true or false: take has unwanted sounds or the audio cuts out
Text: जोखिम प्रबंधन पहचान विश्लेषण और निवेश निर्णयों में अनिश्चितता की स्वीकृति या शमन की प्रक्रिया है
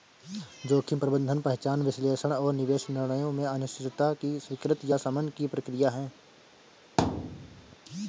true